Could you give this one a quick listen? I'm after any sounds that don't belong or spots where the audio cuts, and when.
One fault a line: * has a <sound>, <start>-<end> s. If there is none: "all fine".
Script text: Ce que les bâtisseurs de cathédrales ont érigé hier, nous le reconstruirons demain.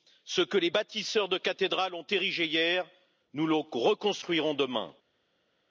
all fine